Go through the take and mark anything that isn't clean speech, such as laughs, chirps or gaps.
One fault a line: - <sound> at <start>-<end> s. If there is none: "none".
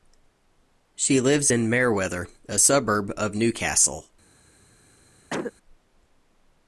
- cough at 5.3-5.5 s